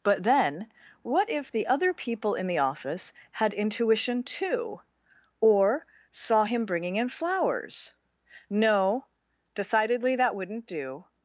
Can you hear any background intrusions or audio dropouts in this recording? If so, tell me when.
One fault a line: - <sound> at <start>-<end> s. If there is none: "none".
none